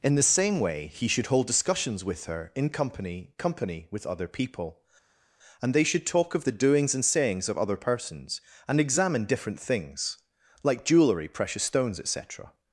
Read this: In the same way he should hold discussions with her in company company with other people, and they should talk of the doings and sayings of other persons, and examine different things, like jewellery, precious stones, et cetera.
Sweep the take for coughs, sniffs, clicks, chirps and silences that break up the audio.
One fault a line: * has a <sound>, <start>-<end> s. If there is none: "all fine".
all fine